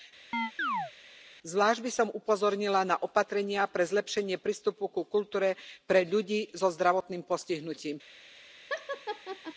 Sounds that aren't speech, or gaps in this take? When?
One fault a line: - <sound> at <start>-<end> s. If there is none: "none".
- chirp at 0.3-0.9 s
- laugh at 8.7-9.5 s